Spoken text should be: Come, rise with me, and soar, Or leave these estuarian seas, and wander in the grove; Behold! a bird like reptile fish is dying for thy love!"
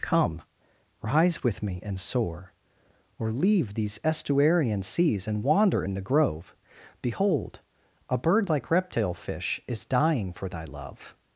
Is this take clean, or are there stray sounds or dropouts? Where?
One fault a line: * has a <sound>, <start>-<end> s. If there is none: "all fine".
all fine